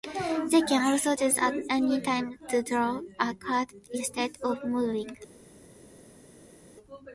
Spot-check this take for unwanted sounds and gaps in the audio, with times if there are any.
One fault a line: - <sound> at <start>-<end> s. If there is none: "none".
none